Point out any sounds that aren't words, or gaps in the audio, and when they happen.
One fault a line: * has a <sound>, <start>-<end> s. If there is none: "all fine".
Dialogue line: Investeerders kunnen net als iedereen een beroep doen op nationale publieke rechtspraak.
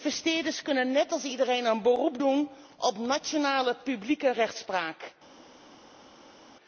all fine